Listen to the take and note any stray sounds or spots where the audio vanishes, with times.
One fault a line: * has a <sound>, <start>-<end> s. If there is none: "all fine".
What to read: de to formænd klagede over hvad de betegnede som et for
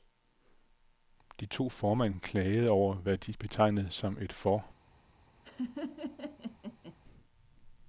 * has a laugh, 5.4-7.0 s